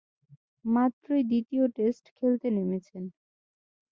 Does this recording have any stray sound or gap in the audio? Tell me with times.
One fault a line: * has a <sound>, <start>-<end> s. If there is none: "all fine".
all fine